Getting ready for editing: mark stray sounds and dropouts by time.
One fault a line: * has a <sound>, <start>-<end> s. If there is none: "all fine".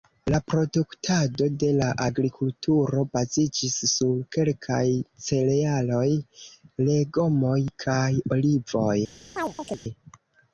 * has a chirp, 9.4-9.8 s